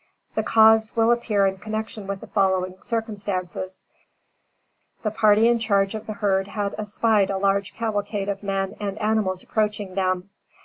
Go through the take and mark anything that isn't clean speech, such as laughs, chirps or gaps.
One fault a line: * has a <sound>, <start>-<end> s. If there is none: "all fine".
all fine